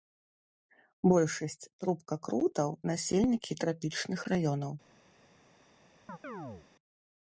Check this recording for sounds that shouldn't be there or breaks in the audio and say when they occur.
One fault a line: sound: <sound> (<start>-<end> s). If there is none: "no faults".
sound: chirp (6.1-6.7 s)